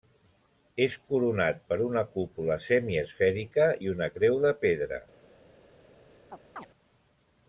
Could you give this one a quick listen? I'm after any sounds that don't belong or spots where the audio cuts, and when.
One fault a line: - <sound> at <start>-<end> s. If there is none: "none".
- chirp at 6.3-6.7 s